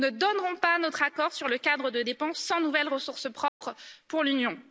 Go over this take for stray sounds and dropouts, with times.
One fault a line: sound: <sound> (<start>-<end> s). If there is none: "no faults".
sound: dropout (3.5-3.6 s)